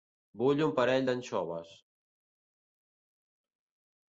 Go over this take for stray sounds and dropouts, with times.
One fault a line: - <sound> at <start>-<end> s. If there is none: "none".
none